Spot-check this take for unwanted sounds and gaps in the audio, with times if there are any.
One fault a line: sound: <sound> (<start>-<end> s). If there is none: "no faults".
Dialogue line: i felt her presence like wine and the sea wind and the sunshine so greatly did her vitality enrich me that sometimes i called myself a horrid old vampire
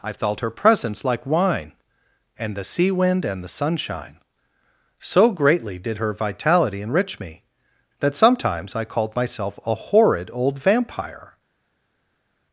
no faults